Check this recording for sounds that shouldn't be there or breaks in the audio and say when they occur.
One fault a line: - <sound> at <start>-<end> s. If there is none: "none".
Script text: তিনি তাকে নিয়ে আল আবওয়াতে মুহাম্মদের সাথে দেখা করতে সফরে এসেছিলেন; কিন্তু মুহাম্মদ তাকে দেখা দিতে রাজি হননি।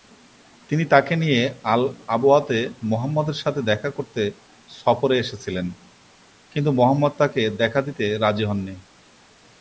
none